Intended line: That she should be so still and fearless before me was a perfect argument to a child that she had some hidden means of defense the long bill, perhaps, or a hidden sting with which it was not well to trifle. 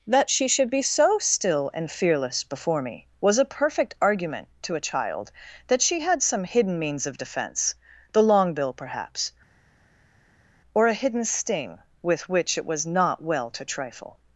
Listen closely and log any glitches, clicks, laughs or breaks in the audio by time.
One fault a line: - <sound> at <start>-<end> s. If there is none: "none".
none